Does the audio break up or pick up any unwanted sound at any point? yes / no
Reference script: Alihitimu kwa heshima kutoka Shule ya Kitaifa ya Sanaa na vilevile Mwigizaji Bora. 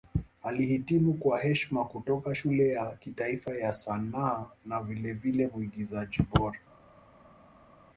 no